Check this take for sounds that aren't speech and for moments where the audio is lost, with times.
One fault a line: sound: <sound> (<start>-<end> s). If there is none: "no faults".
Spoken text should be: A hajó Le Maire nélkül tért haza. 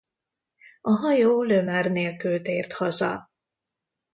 no faults